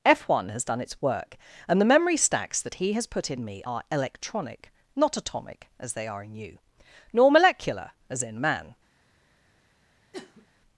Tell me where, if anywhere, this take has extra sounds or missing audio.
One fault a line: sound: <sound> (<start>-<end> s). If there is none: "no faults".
sound: sniff (10.1-10.5 s)